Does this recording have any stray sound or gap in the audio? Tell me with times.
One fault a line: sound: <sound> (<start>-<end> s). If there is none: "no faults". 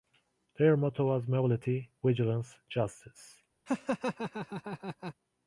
sound: laugh (3.7-5.1 s)